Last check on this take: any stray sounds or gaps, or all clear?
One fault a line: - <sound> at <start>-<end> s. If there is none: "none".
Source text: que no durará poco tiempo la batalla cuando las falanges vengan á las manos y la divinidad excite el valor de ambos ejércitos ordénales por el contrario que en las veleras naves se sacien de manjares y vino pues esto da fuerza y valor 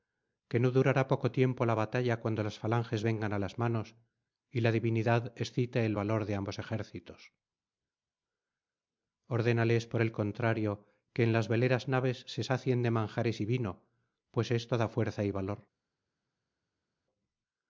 none